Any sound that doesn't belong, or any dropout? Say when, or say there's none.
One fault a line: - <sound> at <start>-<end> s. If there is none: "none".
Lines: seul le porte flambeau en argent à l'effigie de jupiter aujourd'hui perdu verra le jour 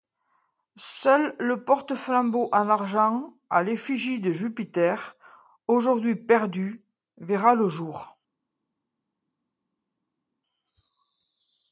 none